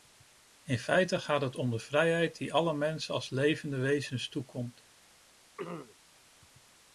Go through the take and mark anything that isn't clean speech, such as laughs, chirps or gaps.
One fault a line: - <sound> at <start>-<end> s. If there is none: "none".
- throat clearing at 5.6-6.0 s